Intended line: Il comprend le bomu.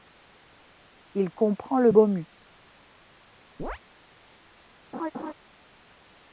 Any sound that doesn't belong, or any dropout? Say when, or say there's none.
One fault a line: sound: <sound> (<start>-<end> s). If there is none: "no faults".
sound: chirp (3.6-3.8 s)
sound: laugh (4.9-5.3 s)